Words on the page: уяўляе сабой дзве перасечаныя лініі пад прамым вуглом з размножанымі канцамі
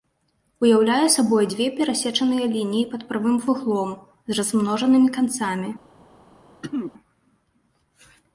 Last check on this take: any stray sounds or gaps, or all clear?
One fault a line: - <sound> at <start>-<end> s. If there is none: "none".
- throat clearing at 6.6-6.9 s